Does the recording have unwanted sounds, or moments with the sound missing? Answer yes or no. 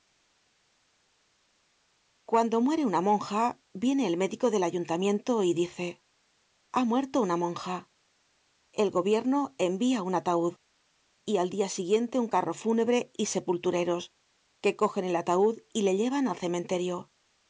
no